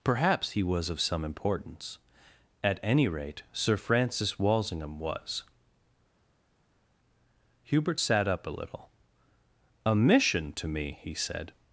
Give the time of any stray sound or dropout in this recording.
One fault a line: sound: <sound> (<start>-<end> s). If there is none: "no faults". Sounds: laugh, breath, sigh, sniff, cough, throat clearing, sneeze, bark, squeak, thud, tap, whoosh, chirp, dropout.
no faults